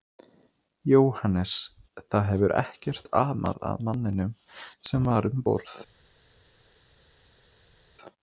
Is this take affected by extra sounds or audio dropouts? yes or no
no